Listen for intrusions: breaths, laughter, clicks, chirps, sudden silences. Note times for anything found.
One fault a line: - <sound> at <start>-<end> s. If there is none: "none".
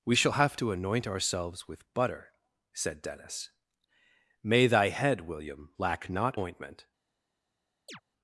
- chirp at 7.9-8.0 s